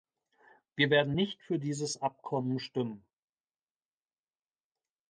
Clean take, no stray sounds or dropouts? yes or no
yes